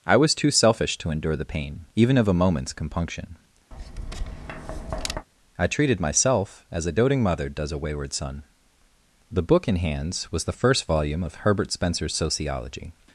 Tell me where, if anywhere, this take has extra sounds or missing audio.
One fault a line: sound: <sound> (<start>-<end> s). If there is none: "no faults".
sound: tap (3.7-5.3 s)